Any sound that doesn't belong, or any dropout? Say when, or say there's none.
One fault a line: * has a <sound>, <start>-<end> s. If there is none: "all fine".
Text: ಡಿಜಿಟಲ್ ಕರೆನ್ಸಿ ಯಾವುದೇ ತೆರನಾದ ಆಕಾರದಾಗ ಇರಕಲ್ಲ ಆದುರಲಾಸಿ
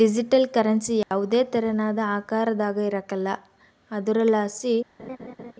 * has a dropout, 1.0-1.1 s
* has a laugh, 5.0-5.5 s